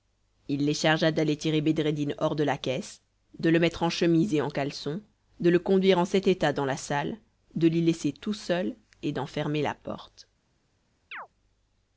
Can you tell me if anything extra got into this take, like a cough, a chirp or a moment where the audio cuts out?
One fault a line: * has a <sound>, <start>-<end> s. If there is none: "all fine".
* has a chirp, 11.1-11.3 s